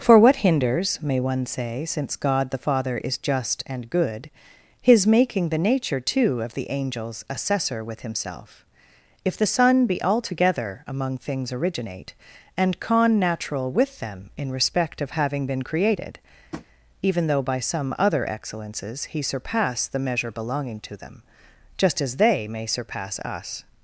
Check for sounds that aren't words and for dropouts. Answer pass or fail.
fail